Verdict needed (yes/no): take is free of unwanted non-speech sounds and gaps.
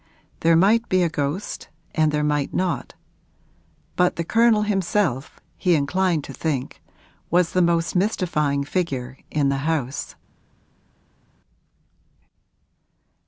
yes